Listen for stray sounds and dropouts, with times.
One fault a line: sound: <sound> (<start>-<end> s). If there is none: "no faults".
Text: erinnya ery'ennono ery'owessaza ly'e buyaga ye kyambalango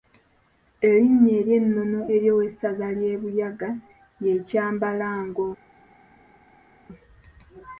no faults